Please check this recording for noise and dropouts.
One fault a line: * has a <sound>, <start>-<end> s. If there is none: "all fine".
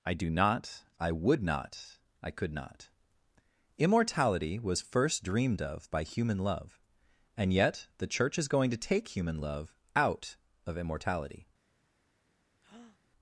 * has a breath, 12.6-13.0 s